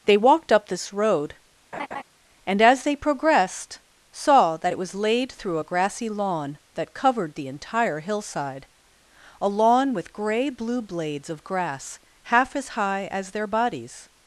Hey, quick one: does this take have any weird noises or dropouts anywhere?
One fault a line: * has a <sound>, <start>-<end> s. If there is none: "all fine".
* has a laugh, 1.7-2.0 s